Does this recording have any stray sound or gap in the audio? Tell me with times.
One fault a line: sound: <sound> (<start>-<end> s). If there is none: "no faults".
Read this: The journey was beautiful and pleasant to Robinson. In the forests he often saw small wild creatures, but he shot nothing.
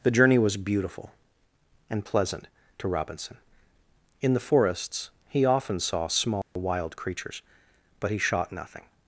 sound: dropout (6.4-6.6 s)